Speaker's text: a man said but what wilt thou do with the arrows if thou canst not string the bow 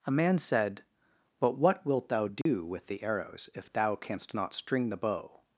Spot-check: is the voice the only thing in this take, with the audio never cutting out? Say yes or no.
no